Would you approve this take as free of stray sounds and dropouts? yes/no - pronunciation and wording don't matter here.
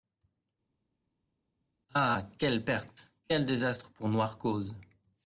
yes